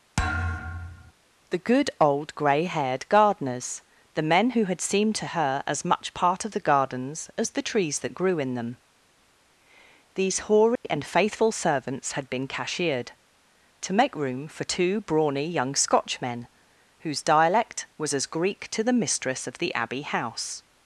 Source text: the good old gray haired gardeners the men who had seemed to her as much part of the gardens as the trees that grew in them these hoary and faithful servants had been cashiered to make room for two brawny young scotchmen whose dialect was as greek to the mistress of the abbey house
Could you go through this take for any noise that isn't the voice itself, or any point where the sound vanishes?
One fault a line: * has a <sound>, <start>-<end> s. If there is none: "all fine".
* has a thud, 0.2-1.1 s
* has a dropout, 10.8-10.8 s